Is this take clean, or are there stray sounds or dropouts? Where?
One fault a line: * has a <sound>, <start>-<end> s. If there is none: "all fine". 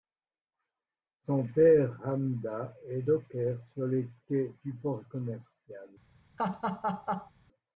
* has a laugh, 6.4-7.3 s